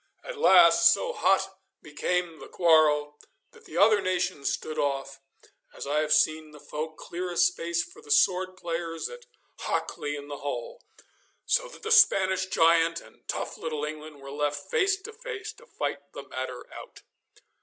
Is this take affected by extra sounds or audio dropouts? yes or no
no